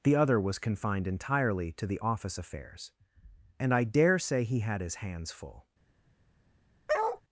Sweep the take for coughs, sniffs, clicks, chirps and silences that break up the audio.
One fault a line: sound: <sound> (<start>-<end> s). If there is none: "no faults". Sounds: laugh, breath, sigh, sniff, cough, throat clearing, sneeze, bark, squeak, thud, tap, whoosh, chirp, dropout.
sound: bark (6.9-7.2 s)